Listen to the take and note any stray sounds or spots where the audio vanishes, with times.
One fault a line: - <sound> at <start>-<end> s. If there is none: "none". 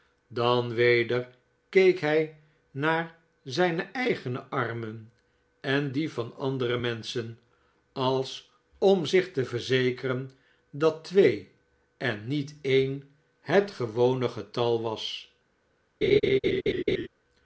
- laugh at 16.0-17.1 s